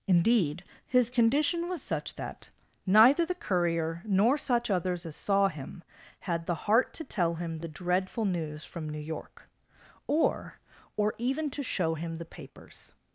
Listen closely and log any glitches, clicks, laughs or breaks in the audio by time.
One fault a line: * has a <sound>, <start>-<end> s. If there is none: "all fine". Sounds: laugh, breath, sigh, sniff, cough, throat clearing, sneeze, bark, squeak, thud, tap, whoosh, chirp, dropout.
all fine